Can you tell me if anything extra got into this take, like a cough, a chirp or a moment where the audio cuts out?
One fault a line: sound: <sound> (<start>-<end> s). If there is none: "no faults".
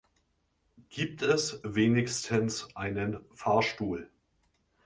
no faults